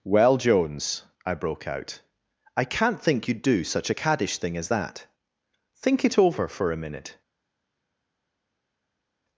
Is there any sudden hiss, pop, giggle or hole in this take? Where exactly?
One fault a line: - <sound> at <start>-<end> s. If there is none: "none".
none